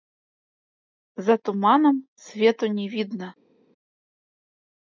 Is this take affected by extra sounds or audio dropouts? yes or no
no